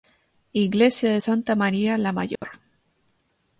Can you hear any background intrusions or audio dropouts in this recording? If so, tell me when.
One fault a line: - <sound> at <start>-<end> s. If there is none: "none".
- dropout at 2.4-2.4 s